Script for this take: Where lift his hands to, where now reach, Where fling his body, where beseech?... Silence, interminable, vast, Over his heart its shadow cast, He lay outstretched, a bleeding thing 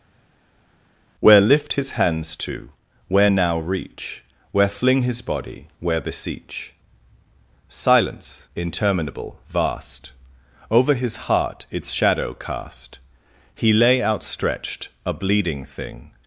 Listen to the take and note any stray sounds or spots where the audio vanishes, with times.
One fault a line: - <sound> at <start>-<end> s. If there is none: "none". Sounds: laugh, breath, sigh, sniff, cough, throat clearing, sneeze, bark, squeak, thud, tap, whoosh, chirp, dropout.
none